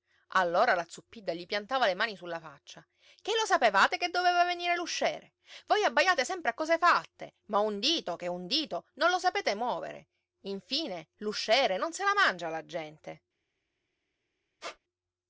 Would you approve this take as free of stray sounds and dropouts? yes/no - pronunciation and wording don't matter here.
no